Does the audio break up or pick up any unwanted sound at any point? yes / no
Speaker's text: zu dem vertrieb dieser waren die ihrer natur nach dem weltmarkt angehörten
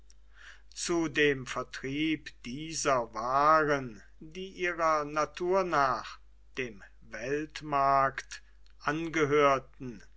no